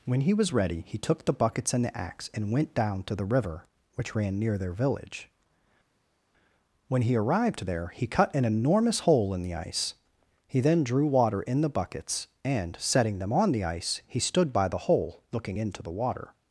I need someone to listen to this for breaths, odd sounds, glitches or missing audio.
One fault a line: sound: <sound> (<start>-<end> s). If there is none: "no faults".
no faults